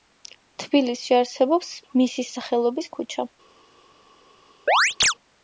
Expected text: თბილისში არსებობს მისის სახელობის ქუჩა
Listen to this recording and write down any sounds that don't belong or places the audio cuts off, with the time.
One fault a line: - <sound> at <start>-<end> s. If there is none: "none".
- chirp at 4.7-5.1 s